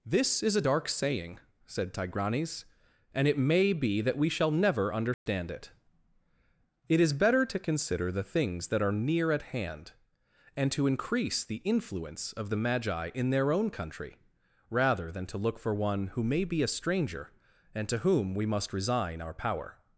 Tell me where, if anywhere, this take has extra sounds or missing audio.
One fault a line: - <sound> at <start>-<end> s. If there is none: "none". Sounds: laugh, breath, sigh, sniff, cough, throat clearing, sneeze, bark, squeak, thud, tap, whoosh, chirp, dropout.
- dropout at 5.1-5.3 s